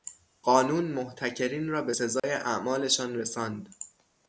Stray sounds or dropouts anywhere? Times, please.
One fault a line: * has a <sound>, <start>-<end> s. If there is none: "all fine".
* has a dropout, 2.2-2.2 s